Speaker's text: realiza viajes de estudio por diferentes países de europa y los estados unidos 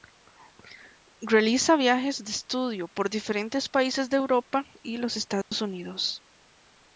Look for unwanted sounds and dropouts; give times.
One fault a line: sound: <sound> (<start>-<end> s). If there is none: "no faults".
sound: dropout (5.4-5.5 s)